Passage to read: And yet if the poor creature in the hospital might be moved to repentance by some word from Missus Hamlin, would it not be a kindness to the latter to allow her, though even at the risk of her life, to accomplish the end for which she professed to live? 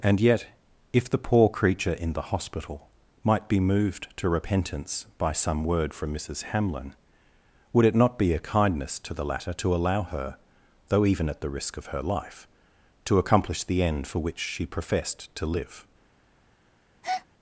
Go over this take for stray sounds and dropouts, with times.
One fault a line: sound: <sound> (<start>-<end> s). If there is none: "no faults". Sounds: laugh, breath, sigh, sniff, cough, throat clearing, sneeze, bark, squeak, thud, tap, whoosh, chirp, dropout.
sound: breath (17.0-17.3 s)